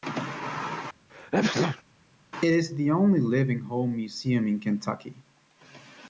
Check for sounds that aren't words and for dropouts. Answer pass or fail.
fail